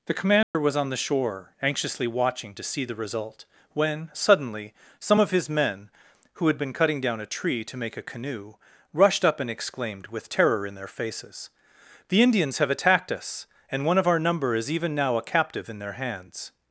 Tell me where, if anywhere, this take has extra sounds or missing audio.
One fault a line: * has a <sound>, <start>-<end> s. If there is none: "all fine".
* has a dropout, 0.4-0.5 s